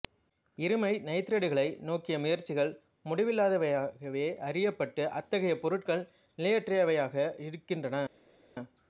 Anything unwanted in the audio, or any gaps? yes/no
no